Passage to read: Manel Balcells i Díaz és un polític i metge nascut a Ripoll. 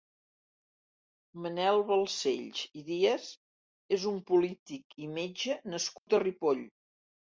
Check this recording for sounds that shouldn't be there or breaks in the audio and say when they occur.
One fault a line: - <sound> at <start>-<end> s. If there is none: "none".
- dropout at 6.0-6.1 s